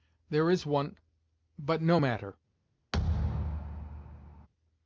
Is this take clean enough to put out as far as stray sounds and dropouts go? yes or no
no